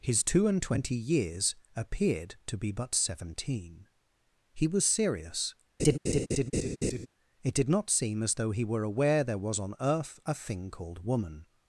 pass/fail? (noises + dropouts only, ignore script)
fail